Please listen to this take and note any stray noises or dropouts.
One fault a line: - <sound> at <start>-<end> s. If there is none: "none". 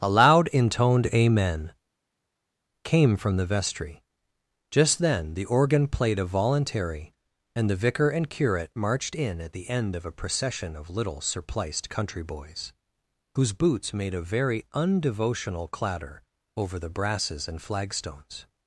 none